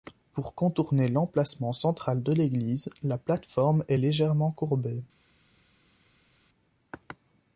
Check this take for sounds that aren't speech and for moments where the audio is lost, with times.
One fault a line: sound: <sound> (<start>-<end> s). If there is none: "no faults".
no faults